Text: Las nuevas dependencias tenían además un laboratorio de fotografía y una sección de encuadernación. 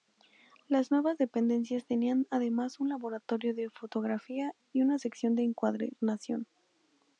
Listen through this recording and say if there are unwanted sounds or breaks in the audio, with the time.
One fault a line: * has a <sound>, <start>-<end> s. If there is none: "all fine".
all fine